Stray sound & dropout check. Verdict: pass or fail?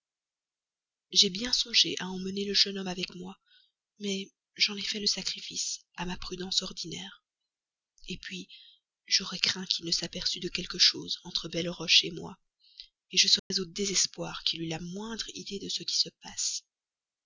fail